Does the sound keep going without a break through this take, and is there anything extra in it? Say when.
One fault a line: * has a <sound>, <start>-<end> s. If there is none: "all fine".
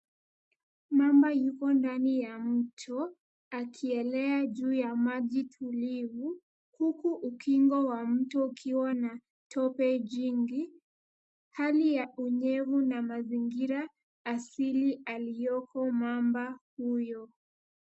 all fine